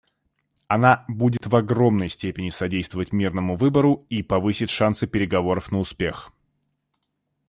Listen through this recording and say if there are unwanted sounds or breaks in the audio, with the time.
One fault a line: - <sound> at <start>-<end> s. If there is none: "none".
- dropout at 1.4-1.4 s